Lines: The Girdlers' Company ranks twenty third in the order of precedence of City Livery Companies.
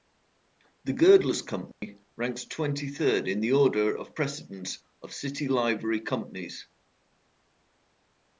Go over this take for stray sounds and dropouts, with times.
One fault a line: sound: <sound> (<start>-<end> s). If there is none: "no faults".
sound: dropout (1.7-1.8 s)